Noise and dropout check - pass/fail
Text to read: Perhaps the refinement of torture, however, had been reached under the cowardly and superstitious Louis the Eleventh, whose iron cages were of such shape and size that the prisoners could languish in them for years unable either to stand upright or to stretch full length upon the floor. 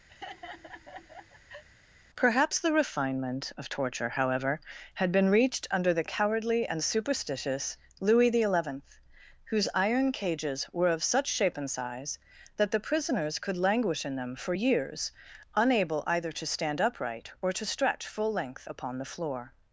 fail